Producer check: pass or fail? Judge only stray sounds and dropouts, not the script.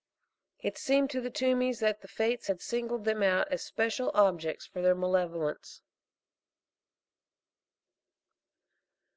pass